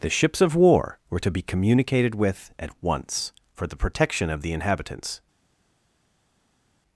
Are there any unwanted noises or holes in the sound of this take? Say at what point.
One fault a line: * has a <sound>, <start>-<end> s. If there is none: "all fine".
all fine